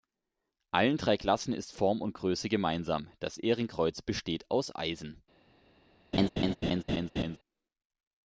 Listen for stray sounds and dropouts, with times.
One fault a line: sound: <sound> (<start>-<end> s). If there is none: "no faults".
sound: laugh (6.1-7.4 s)